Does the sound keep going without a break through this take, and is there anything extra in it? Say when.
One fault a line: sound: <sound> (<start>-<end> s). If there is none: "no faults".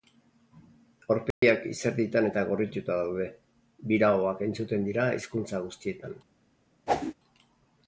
sound: dropout (1.3-1.4 s)
sound: whoosh (6.9-7.1 s)